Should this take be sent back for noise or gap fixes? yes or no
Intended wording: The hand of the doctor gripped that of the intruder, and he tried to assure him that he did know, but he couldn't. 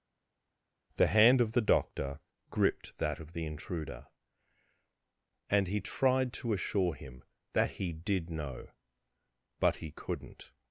no